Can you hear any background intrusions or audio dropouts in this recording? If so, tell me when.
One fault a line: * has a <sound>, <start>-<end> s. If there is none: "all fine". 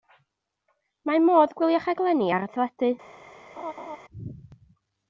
* has a laugh, 3.6-4.0 s